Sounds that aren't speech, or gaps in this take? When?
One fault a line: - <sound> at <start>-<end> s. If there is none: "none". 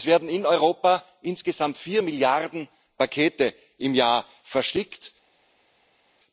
none